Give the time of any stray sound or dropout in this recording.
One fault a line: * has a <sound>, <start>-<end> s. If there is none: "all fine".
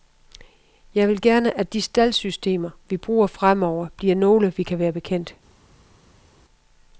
all fine